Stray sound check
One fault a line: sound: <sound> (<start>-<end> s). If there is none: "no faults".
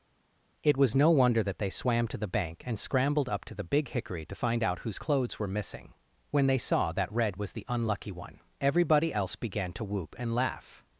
no faults